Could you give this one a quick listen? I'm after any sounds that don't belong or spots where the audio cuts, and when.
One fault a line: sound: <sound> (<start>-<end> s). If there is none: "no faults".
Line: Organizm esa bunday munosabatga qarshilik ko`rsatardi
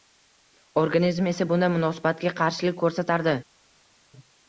no faults